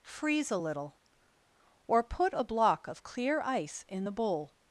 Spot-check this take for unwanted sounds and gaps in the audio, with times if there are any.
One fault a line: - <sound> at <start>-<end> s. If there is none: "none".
none